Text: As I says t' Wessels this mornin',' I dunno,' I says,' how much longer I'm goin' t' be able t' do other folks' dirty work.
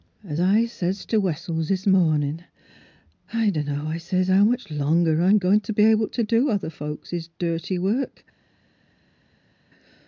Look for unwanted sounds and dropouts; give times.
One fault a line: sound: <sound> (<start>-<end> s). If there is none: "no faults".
no faults